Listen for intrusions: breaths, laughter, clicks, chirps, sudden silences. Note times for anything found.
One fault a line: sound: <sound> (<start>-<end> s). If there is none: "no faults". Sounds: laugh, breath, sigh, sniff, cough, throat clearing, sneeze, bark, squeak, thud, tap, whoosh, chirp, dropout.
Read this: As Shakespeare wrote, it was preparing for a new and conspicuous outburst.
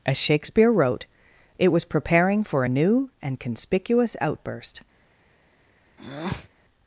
sound: breath (6.0-6.5 s)